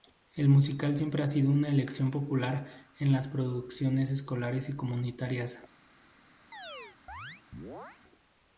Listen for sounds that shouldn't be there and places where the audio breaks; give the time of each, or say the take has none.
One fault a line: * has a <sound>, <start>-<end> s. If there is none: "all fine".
* has a chirp, 6.5-8.0 s